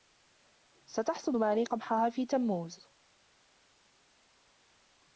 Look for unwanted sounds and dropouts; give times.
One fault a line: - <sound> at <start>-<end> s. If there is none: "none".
none